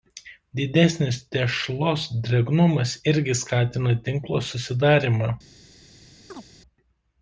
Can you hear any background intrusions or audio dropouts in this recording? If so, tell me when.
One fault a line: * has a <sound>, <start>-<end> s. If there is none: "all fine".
* has a chirp, 6.3-6.5 s